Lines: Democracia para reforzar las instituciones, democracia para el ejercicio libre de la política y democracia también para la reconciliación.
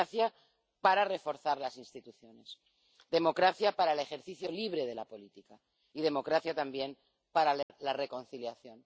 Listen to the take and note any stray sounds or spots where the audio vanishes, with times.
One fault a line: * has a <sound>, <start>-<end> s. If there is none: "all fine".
* has a dropout, 7.6-7.7 s